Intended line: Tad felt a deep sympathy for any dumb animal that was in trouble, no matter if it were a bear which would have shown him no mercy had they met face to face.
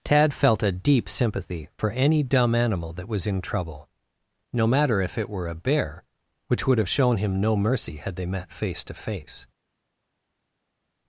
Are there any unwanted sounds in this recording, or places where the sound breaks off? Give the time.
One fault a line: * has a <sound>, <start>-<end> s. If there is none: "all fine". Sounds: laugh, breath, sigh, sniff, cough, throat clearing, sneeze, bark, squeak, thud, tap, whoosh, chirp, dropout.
all fine